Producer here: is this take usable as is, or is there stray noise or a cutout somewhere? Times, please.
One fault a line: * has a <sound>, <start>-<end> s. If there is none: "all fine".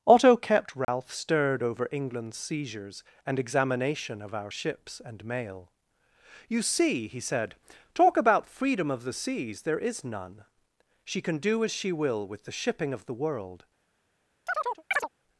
* has a dropout, 0.8-0.9 s
* has a chirp, 14.5-15.1 s